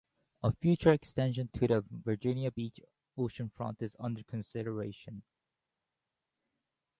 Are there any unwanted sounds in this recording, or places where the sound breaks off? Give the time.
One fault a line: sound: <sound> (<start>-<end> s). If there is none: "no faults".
no faults